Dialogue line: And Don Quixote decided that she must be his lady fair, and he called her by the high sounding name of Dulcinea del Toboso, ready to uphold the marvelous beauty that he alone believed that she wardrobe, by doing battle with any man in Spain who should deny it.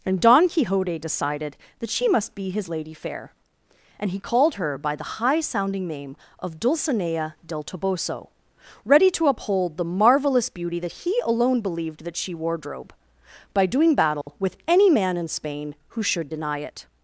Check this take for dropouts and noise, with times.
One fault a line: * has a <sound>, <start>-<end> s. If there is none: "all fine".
* has a dropout, 14.2-14.3 s